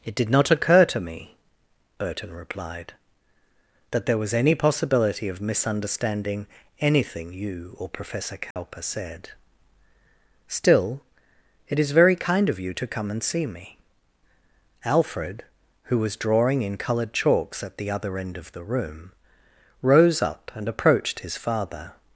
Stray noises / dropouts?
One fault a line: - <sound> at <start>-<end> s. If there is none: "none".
- dropout at 8.5-8.6 s